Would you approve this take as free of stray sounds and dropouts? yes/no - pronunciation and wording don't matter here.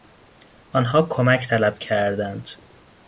yes